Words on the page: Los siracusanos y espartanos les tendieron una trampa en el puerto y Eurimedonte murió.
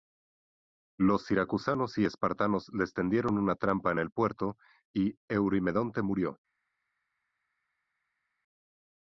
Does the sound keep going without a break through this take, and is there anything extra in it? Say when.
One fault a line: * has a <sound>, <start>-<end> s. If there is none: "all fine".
all fine